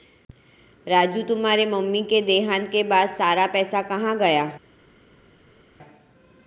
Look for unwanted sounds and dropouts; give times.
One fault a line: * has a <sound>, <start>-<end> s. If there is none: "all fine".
all fine